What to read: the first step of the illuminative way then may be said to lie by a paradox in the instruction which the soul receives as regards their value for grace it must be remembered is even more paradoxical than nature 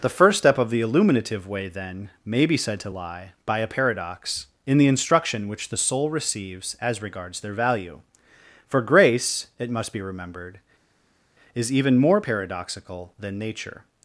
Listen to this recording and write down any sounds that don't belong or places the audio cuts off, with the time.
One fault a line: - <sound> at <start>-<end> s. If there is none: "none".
none